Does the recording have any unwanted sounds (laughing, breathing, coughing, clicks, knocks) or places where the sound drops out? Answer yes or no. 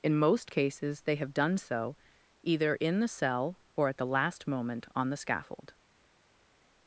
no